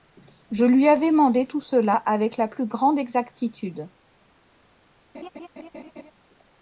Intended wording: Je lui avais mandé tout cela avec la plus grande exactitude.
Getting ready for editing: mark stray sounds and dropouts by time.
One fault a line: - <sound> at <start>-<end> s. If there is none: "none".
- laugh at 5.1-6.1 s